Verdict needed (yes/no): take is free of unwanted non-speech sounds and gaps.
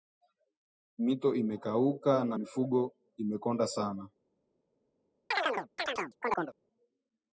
no